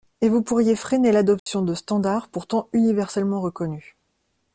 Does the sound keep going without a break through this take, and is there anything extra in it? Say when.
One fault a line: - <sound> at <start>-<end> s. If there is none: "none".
- dropout at 1.4-1.5 s